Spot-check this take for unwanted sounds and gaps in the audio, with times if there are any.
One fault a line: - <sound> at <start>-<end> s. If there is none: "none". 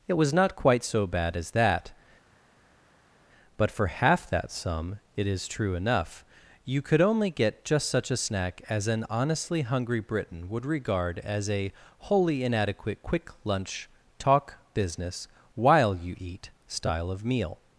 none